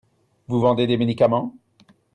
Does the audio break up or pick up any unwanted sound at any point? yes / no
no